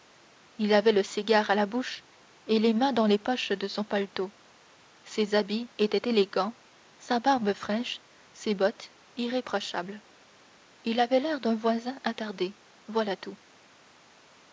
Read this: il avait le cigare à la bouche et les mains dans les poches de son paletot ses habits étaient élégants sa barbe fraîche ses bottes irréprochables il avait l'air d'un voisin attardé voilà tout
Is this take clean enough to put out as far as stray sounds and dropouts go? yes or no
yes